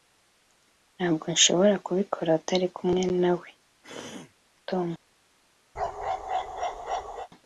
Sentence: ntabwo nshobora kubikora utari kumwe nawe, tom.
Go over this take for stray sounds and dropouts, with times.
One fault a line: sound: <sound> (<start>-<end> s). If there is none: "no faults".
sound: throat clearing (3.8-4.3 s)
sound: bark (5.8-7.3 s)